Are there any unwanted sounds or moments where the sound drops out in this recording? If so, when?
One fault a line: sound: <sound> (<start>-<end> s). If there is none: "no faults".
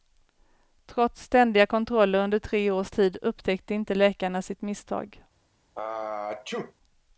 sound: sneeze (5.7-6.7 s)